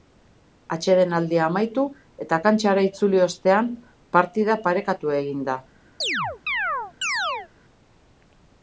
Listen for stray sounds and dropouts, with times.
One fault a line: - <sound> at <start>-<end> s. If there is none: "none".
- chirp at 6.0-7.5 s